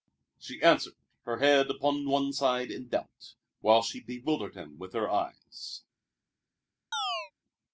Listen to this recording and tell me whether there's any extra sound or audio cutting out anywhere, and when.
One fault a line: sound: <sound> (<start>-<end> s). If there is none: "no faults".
sound: chirp (6.9-7.3 s)